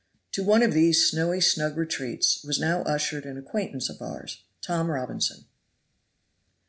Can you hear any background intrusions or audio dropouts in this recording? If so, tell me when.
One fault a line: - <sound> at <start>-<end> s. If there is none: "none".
none